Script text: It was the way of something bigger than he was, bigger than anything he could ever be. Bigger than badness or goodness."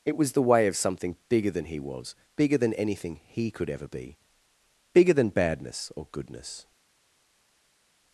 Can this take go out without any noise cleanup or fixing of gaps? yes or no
yes